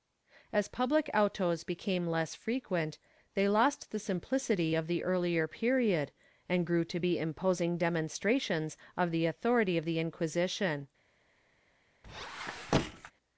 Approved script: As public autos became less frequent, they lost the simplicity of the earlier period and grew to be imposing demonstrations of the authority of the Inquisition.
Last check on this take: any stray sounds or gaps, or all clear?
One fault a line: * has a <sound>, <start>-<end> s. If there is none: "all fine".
* has a squeak, 12.0-13.1 s